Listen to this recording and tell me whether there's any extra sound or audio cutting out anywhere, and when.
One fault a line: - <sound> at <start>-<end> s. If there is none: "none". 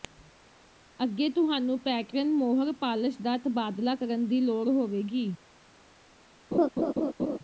- laugh at 6.5-7.4 s